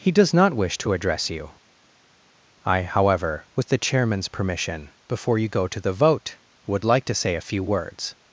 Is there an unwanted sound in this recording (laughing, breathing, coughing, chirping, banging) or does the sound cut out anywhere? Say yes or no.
no